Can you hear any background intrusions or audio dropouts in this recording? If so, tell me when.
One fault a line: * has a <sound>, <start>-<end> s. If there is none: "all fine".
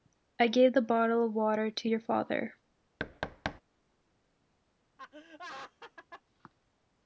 * has a thud, 3.0-3.6 s
* has a laugh, 5.0-6.2 s